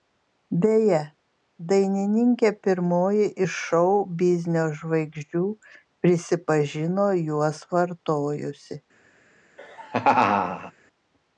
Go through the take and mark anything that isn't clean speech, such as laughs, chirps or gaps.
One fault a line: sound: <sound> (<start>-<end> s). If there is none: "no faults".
sound: laugh (9.6-10.7 s)